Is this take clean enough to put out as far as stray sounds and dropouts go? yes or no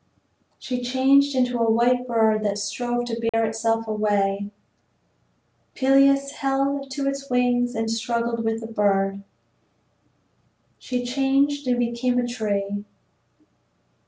no